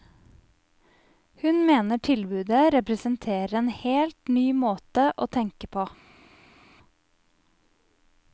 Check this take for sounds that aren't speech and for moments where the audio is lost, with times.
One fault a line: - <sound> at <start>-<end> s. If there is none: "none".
none